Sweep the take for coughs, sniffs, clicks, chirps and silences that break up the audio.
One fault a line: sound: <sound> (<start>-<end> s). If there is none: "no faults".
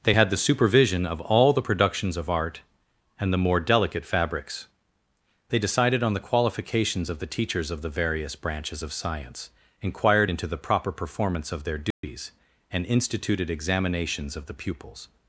sound: dropout (11.9-12.0 s)